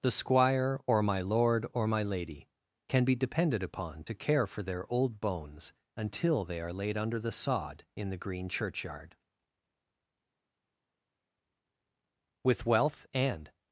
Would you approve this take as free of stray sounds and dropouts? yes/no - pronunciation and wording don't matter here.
yes